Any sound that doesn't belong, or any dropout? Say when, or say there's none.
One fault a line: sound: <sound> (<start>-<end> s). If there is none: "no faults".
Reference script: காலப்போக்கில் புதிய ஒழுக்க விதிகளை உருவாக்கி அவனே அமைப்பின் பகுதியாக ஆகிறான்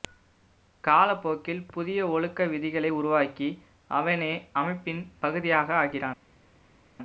no faults